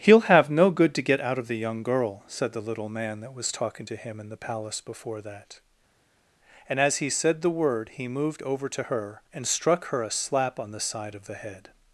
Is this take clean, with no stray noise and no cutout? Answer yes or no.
yes